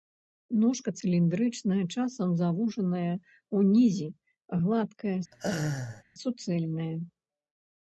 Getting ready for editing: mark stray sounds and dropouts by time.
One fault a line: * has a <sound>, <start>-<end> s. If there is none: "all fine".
* has a laugh, 5.3-6.0 s